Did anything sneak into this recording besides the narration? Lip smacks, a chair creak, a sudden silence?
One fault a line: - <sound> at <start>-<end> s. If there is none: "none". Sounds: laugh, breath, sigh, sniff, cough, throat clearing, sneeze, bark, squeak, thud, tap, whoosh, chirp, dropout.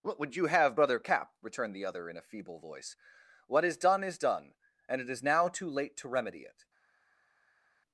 none